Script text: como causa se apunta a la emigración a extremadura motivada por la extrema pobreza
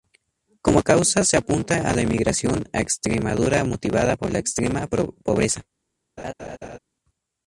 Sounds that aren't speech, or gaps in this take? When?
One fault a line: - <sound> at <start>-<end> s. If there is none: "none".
- laugh at 6.2-6.8 s